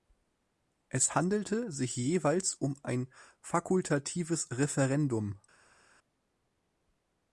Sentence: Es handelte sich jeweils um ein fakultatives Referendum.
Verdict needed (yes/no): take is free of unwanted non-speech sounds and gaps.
yes